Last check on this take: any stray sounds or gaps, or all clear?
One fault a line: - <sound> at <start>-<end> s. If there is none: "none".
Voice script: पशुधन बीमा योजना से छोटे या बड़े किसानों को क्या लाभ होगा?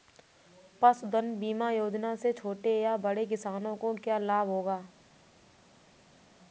none